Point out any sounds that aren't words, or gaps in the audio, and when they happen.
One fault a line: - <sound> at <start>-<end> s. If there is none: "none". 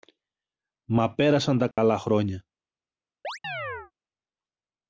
- dropout at 1.7-1.8 s
- chirp at 3.2-3.9 s